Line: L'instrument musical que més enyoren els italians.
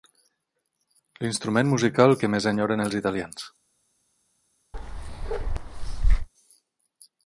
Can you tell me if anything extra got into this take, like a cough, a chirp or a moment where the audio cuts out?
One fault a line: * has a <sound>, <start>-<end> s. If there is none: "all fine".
* has a bark, 4.7-6.3 s